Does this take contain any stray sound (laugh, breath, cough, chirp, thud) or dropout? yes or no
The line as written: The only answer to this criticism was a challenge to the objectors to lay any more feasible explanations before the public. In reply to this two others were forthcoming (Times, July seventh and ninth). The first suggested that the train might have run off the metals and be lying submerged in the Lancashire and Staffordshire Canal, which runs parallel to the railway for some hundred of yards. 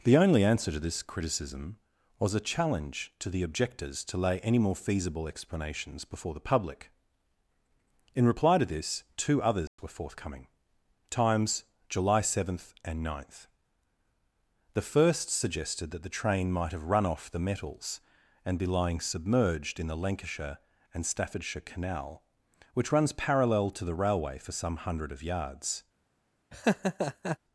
yes